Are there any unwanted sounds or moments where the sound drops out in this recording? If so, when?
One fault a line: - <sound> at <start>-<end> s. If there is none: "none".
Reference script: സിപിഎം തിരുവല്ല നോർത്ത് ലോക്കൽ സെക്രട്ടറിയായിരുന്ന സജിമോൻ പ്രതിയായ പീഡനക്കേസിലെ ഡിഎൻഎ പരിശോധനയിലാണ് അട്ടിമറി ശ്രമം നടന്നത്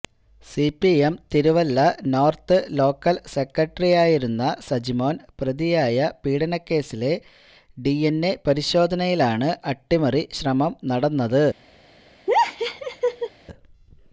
- laugh at 12.3-13.3 s